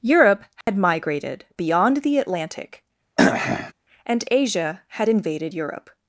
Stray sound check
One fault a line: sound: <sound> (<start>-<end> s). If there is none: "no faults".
sound: dropout (0.6-0.7 s)
sound: throat clearing (3.2-3.7 s)